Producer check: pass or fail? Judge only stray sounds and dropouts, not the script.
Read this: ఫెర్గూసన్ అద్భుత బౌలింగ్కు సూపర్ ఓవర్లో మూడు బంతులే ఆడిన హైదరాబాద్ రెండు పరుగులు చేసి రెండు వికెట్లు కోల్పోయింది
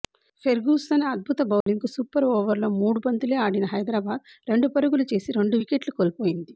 fail